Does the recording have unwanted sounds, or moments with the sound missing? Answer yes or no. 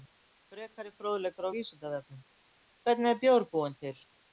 no